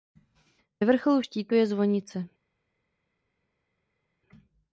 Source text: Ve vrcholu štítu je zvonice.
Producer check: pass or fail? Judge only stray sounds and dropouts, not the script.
pass